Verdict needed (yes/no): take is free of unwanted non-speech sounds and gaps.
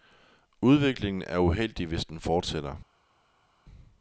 yes